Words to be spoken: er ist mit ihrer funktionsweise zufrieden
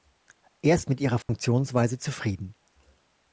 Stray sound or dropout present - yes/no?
yes